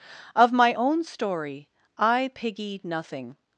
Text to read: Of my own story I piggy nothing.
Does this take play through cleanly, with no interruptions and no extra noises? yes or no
yes